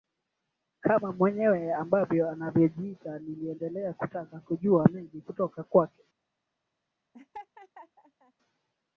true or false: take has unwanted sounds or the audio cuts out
true